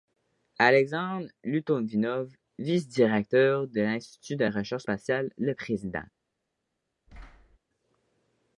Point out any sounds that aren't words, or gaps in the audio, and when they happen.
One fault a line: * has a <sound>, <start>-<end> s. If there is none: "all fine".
* has a thud, 7.1-7.6 s